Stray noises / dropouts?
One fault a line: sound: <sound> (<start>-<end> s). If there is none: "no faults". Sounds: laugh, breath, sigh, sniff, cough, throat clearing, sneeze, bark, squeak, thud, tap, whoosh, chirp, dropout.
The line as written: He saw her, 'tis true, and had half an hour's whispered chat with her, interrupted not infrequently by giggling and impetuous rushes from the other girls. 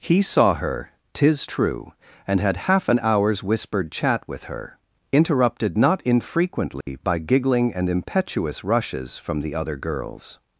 sound: dropout (6.8-6.9 s)